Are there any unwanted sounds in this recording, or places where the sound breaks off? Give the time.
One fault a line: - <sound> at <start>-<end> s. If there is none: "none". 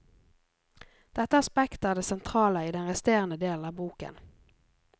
none